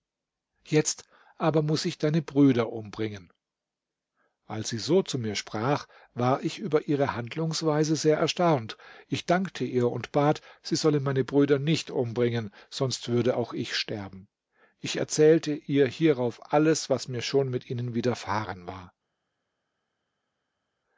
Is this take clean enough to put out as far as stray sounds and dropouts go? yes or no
yes